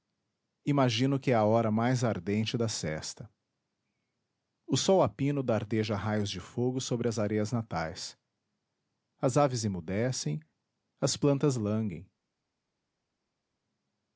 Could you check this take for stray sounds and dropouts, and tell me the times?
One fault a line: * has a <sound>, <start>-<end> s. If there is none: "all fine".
all fine